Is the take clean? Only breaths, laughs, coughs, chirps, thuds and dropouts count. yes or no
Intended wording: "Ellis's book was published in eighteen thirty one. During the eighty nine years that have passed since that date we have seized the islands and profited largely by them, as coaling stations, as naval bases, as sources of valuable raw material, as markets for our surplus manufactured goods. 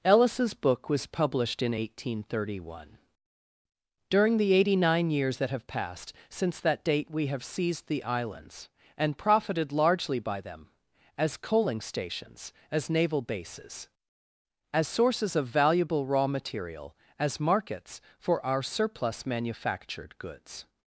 yes